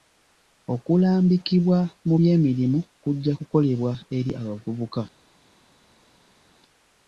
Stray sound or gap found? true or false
false